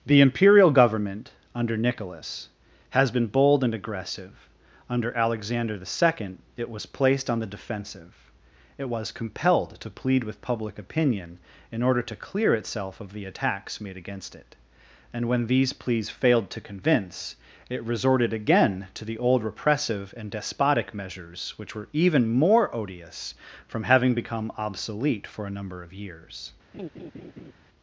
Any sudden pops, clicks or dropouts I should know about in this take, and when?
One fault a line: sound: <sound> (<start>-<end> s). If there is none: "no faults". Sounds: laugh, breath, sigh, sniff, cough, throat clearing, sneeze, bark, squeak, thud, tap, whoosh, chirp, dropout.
sound: laugh (26.7-27.5 s)